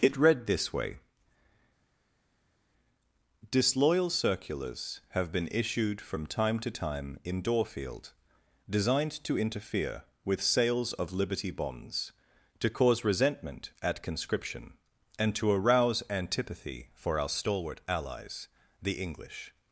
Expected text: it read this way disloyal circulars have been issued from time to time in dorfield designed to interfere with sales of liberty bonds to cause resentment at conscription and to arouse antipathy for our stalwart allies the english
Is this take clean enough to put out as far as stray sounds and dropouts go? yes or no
yes